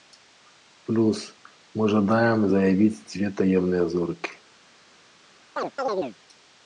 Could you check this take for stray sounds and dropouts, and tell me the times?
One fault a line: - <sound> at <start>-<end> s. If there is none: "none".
- chirp at 5.6-6.2 s